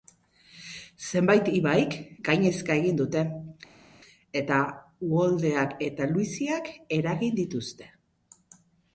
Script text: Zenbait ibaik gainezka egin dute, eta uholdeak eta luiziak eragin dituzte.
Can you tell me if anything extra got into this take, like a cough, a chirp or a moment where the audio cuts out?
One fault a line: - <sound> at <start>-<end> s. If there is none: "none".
none